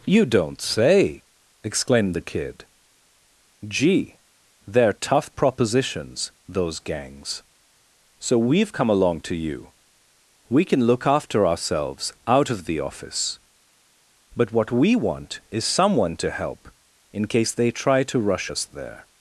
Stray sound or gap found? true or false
false